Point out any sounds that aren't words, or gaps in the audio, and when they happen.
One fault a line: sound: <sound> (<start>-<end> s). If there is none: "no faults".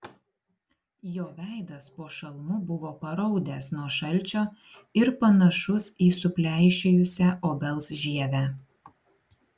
no faults